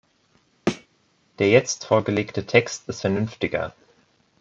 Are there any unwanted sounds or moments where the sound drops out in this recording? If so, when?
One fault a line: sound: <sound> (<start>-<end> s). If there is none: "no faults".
sound: thud (0.7-0.9 s)